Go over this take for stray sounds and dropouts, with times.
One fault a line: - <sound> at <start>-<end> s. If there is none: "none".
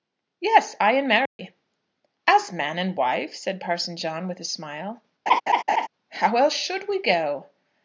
- dropout at 1.3-1.4 s
- laugh at 5.3-5.9 s